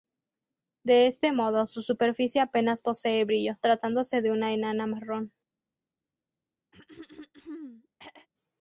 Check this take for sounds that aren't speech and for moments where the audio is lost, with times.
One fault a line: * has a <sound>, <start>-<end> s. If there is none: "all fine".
* has a throat clearing, 6.7-8.3 s